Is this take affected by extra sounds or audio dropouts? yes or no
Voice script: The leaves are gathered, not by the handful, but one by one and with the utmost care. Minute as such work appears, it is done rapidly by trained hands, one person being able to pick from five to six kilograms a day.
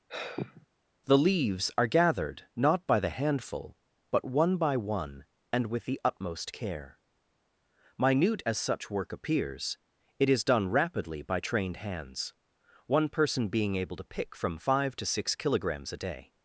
yes